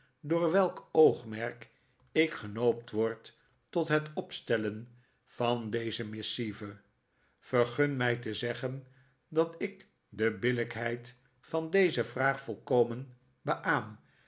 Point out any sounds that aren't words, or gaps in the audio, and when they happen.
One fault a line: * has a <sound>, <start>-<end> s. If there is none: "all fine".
all fine